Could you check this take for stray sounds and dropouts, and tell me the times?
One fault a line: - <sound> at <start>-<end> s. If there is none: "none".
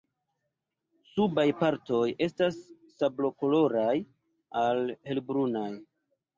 none